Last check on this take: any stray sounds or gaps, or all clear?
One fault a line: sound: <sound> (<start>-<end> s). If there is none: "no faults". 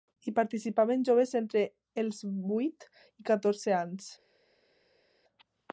no faults